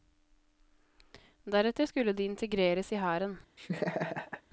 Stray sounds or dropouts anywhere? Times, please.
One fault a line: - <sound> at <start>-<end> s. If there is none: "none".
- laugh at 3.6-4.4 s